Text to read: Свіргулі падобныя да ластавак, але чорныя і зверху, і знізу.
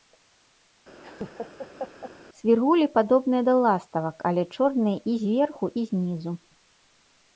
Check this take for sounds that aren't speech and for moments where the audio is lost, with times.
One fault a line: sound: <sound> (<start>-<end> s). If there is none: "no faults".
sound: laugh (1.0-2.1 s)